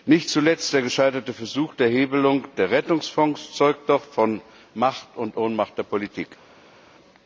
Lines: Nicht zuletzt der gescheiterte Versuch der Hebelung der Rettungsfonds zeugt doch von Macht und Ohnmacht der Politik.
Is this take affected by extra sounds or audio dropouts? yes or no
no